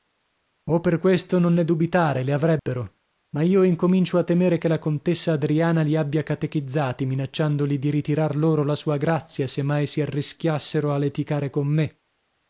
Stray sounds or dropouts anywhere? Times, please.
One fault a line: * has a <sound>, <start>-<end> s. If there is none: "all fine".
* has a dropout, 2.6-2.7 s